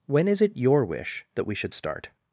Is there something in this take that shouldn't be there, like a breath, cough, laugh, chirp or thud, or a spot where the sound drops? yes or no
no